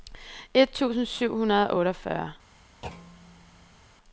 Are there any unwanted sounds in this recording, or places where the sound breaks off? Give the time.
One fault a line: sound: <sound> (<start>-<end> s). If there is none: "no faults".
sound: thud (2.8-3.8 s)